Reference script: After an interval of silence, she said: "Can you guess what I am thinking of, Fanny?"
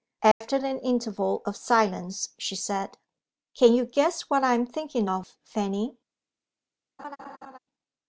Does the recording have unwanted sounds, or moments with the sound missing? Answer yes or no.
yes